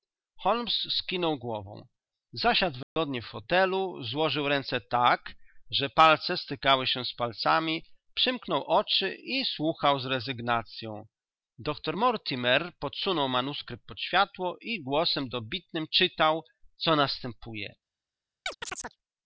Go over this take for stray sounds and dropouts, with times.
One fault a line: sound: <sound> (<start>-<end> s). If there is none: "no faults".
sound: dropout (2.8-3.0 s)
sound: chirp (18.5-19.0 s)